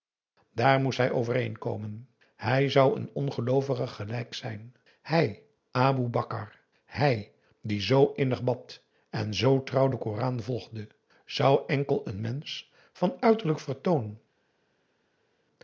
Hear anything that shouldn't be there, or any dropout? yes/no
no